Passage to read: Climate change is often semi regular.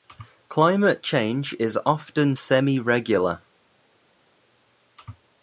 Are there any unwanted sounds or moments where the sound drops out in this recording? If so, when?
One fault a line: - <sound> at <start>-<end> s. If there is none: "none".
none